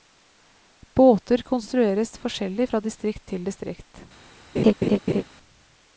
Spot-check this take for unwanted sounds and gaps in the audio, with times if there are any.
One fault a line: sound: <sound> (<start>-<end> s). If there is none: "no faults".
sound: laugh (4.6-5.2 s)